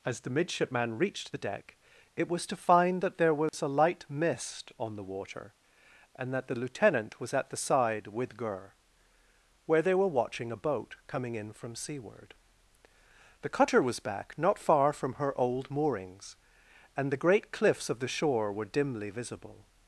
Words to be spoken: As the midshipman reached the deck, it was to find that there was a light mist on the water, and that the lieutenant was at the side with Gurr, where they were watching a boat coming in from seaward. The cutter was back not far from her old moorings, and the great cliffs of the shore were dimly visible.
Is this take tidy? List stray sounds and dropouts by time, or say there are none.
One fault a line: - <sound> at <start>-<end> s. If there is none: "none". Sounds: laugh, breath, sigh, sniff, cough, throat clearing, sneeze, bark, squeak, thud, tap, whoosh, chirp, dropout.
- dropout at 3.5-3.5 s